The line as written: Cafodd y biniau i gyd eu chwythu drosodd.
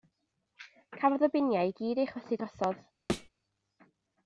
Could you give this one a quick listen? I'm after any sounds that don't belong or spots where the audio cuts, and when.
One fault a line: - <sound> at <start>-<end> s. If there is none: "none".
- thud at 3.1-3.3 s